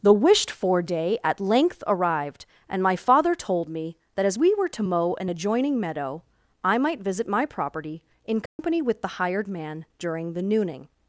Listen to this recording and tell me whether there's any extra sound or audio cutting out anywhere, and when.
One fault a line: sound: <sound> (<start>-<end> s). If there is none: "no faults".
sound: dropout (8.5-8.6 s)